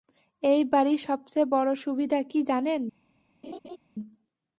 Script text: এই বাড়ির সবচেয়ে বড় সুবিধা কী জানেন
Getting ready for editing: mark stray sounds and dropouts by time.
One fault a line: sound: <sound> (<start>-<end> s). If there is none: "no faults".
sound: laugh (3.4-3.8 s)